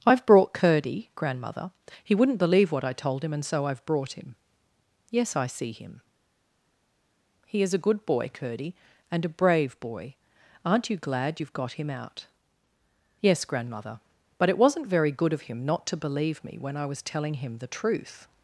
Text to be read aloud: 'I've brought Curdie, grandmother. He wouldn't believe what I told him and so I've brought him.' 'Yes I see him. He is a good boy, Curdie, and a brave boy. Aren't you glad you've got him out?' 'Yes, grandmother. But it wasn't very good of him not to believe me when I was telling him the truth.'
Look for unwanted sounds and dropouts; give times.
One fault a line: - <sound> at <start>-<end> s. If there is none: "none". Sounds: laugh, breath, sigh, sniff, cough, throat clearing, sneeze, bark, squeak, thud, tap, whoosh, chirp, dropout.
none